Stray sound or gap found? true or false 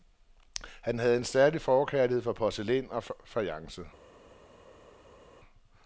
false